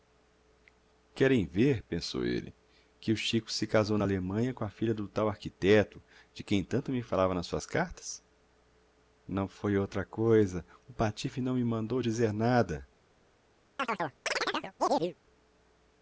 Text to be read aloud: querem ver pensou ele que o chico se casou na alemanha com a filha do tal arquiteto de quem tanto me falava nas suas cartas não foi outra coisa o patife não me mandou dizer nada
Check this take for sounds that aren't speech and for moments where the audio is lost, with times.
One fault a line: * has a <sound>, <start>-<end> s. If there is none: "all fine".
* has a chirp, 13.8-15.1 s